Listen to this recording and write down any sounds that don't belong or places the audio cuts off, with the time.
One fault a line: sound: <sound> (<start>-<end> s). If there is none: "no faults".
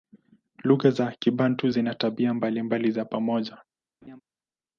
sound: laugh (4.0-4.2 s)